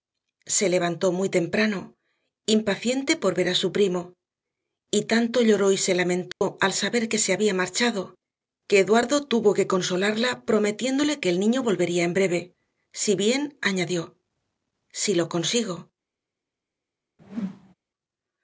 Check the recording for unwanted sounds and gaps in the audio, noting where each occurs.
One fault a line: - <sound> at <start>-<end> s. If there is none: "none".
- dropout at 6.3-6.4 s
- whoosh at 17.2-17.7 s